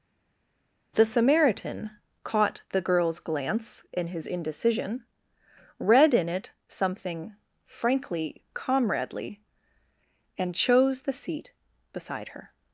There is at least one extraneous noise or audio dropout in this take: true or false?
false